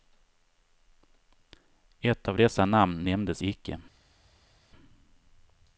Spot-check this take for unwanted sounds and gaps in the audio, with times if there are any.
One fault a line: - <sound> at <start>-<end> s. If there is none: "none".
none